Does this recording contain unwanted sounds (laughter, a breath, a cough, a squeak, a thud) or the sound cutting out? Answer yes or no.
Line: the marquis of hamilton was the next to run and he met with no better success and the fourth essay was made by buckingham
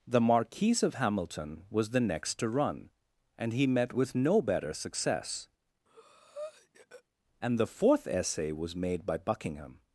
yes